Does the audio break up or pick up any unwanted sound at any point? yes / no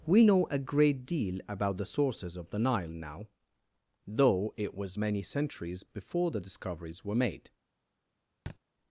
yes